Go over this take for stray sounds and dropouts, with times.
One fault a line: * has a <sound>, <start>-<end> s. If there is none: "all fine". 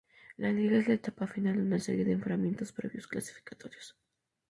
all fine